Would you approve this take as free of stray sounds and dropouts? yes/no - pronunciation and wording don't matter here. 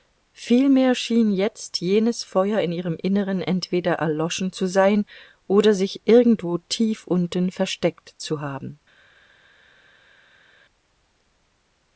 yes